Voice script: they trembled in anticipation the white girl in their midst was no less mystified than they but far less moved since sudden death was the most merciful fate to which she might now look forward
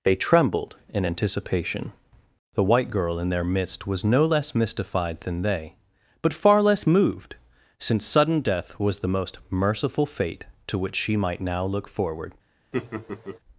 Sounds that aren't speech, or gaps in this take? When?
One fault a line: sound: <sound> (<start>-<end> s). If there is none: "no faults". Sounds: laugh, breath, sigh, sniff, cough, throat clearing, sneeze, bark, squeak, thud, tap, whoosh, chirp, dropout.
sound: laugh (12.7-13.4 s)